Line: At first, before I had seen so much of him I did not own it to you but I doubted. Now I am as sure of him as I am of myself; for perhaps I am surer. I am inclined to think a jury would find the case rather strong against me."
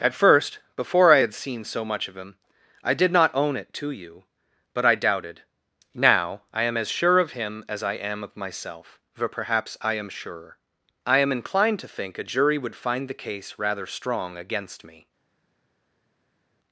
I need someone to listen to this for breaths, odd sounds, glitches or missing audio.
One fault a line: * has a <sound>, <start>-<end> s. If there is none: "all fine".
all fine